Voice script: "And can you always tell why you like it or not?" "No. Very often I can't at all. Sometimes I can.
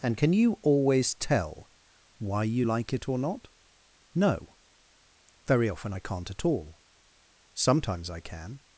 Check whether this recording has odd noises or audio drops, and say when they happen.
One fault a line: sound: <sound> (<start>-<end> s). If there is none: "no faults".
no faults